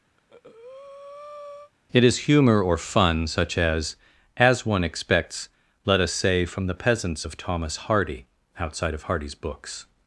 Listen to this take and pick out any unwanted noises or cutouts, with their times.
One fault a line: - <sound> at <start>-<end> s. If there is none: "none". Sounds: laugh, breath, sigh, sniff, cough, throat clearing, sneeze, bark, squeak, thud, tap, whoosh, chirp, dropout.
- breath at 0.2-1.7 s